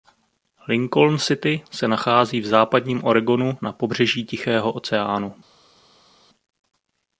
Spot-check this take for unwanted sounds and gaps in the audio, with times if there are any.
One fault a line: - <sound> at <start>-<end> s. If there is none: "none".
none